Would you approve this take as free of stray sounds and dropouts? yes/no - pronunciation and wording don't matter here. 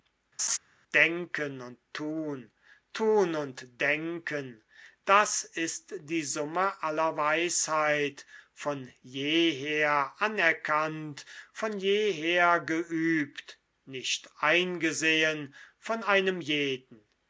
no